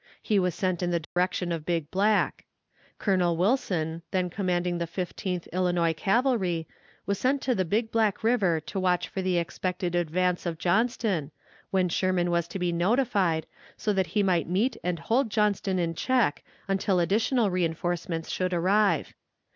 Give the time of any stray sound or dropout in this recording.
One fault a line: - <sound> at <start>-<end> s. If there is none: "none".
- dropout at 1.0-1.2 s